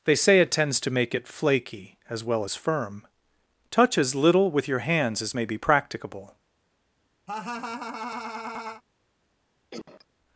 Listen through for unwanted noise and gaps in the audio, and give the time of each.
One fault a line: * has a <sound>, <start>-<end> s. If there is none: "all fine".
* has a laugh, 7.3-8.8 s
* has a cough, 9.7-10.1 s